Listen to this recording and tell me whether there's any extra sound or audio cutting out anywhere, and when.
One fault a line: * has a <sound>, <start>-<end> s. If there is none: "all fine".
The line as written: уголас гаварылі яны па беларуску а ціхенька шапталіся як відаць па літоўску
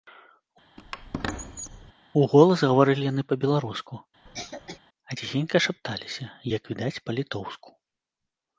* has a squeak, 0.8-1.9 s
* has a cough, 4.3-4.8 s